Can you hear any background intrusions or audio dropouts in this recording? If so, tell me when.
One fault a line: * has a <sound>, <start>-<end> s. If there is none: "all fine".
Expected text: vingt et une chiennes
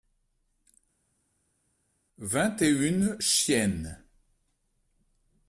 all fine